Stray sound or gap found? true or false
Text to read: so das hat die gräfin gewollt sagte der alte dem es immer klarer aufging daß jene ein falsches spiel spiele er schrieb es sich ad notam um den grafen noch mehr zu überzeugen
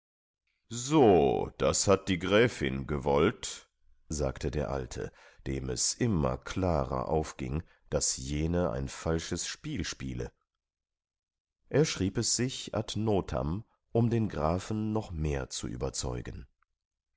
false